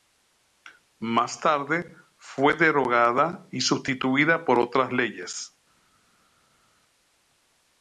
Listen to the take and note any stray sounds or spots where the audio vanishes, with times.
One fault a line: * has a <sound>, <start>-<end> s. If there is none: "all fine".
all fine